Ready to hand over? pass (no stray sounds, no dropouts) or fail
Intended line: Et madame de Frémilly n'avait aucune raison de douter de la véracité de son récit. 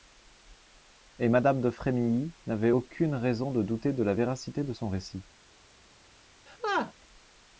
fail